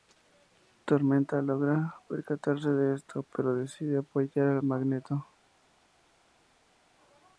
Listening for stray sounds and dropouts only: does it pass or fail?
pass